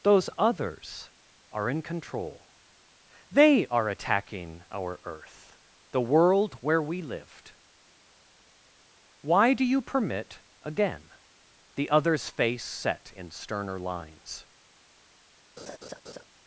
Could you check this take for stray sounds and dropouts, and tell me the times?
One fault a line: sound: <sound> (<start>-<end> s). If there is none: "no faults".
sound: laugh (15.6-16.3 s)